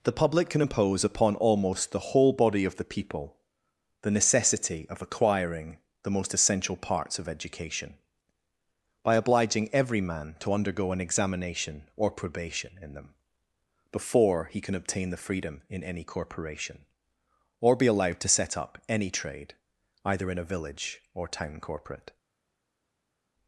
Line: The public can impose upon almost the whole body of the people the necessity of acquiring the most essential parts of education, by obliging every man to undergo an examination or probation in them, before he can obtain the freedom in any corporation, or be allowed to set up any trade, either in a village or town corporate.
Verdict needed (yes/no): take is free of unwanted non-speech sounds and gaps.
yes